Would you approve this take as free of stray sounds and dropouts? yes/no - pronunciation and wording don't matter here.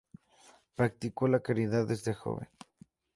yes